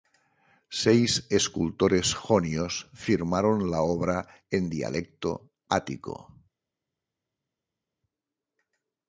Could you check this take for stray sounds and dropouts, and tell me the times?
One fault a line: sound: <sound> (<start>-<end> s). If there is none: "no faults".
no faults